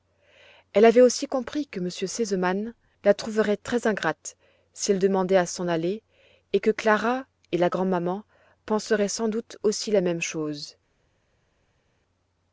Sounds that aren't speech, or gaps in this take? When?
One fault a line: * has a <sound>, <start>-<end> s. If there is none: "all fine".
all fine